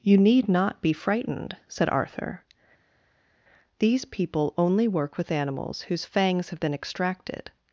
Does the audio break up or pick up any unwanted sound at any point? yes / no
no